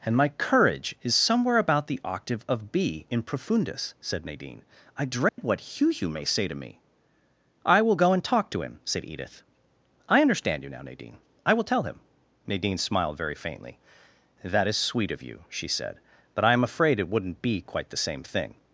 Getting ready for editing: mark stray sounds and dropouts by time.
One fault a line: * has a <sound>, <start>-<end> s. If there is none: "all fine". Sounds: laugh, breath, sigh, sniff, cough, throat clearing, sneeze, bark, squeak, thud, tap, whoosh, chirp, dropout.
* has a dropout, 5.3-5.4 s